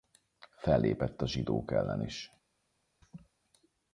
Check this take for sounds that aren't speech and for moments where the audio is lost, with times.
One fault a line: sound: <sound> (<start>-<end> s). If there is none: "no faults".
sound: laugh (3.0-3.3 s)